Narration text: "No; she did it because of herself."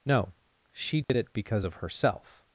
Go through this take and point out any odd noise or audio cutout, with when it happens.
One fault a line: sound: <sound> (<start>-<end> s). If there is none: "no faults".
sound: dropout (1.0-1.1 s)